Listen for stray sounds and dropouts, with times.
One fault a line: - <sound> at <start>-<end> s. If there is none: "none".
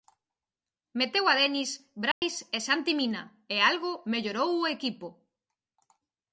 - dropout at 2.1-2.2 s